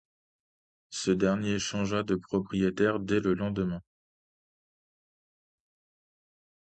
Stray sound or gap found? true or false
false